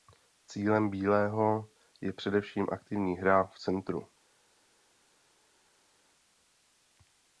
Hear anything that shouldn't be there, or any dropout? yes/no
no